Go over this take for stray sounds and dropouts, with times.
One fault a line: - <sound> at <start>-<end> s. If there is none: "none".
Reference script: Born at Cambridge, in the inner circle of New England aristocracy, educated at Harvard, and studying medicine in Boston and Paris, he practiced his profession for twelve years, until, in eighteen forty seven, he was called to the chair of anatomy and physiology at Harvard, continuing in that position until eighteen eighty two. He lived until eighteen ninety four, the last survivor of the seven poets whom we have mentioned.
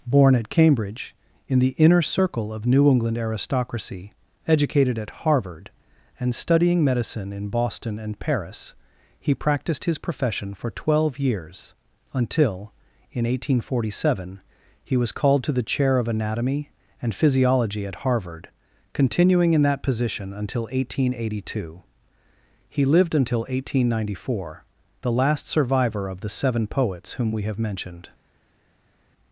none